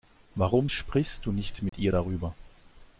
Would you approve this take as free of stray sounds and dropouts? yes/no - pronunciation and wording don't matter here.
no